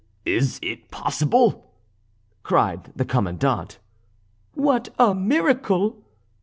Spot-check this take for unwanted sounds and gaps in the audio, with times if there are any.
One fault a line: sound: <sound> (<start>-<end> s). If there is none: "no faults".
no faults